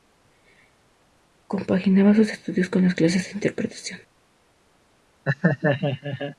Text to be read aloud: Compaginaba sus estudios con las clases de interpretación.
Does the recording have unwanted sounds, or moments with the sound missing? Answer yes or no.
yes